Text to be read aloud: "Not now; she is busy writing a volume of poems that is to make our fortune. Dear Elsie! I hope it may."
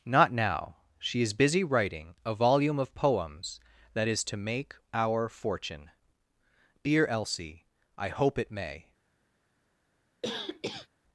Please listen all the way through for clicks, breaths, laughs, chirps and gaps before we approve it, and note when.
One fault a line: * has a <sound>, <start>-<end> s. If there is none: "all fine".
* has a cough, 10.2-10.9 s